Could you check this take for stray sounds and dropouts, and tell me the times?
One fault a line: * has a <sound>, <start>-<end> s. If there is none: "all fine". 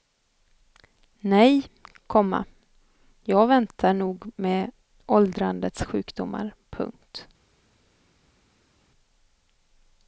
all fine